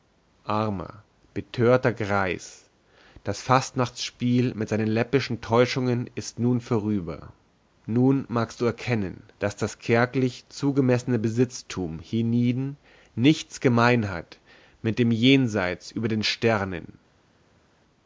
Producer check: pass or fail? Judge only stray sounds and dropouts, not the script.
pass